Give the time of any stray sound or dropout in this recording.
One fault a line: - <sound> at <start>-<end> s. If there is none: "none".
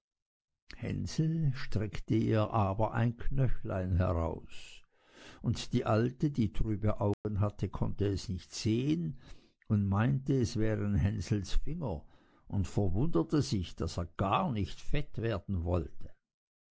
- dropout at 7.1-7.2 s